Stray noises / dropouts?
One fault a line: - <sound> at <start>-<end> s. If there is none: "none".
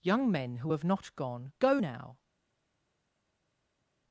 none